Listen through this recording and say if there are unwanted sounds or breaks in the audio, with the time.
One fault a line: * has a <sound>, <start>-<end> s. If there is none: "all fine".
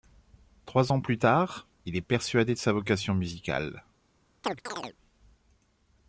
* has a chirp, 4.4-5.0 s